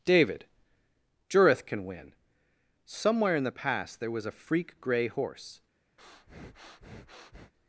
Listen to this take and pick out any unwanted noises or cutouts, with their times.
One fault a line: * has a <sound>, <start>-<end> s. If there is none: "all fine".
* has a breath, 6.0-7.5 s